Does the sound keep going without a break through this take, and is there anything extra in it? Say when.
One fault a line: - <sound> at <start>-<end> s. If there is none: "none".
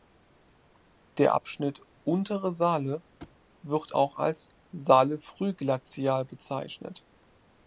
- thud at 3.2-3.4 s